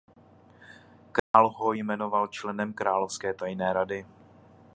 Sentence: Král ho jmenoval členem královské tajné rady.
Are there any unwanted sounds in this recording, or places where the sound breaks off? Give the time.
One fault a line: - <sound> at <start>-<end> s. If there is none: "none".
- dropout at 1.2-1.3 s